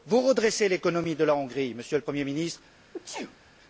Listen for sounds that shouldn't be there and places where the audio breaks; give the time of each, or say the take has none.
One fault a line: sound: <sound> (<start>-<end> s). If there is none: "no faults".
sound: sneeze (2.9-3.4 s)